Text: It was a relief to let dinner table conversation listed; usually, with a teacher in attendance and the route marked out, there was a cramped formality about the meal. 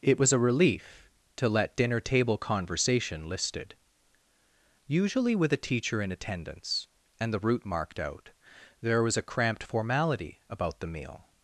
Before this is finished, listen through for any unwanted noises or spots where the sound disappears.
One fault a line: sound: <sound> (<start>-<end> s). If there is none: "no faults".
no faults